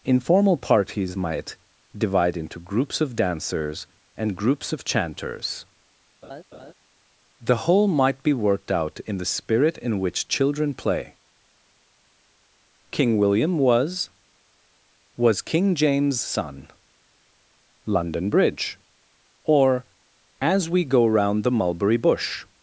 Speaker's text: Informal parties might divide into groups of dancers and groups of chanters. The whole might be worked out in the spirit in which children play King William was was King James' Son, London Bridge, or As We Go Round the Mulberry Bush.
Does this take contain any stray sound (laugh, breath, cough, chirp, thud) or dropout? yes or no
yes